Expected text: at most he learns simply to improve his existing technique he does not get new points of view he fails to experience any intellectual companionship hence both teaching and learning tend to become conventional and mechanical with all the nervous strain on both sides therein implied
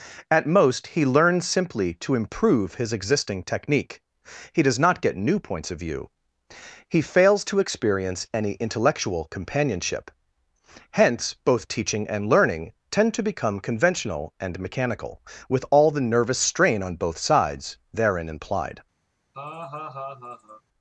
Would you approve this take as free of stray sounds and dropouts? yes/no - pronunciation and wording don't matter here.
no